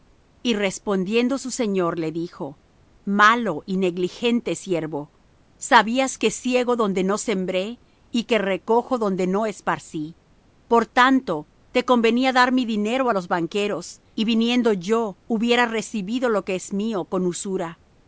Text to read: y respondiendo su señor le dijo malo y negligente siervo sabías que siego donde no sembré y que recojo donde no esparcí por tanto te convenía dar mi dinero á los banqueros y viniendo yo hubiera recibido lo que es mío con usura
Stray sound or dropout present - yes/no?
no